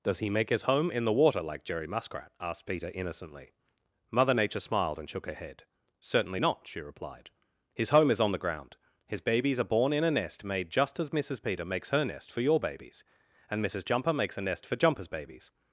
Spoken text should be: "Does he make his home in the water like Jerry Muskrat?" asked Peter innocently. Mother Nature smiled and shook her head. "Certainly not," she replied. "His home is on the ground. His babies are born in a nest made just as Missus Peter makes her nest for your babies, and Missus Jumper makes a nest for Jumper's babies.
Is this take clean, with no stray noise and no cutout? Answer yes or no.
yes